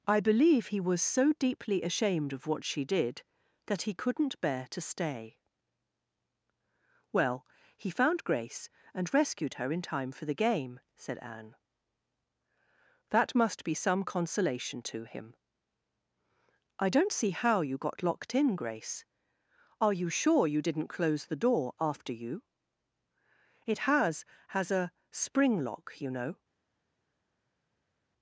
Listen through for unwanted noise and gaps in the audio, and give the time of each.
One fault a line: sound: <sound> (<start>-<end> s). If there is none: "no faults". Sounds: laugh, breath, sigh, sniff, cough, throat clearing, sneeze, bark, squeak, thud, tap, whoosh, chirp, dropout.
no faults